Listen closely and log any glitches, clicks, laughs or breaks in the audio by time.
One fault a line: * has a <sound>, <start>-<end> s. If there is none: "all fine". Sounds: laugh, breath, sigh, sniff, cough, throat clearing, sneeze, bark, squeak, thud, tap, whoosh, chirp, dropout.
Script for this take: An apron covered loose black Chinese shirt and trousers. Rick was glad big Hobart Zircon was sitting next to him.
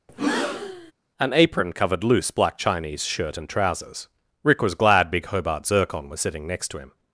* has a breath, 0.1-0.9 s